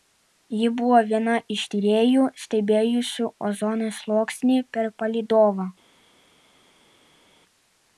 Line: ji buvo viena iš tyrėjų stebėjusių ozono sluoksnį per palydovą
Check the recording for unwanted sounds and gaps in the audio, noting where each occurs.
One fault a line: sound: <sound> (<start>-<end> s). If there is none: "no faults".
no faults